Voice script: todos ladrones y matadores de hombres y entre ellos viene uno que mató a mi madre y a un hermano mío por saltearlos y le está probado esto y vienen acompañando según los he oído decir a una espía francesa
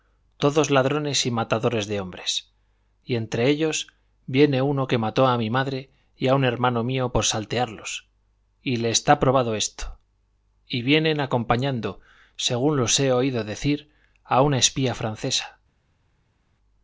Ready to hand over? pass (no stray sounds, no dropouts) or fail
pass